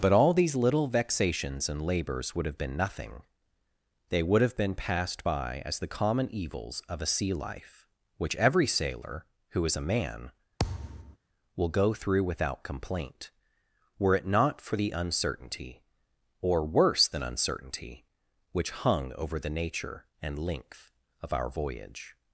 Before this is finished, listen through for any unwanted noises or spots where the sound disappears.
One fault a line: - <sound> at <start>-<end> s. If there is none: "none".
- thud at 10.6-11.2 s